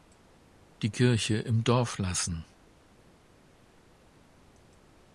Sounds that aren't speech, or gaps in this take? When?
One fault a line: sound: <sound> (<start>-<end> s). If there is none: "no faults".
no faults